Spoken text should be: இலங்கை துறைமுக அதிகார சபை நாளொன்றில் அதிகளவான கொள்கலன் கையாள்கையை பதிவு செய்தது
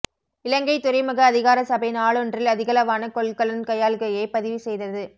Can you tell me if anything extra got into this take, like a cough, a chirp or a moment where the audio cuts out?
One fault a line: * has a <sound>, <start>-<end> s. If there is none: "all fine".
all fine